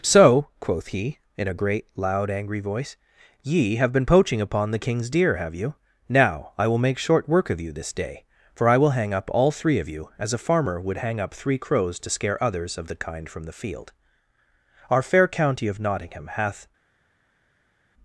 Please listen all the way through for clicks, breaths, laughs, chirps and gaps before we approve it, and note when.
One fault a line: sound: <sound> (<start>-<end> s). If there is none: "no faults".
no faults